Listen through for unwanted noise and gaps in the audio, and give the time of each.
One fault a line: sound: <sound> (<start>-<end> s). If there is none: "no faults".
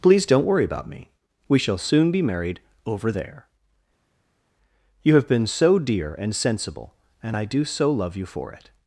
no faults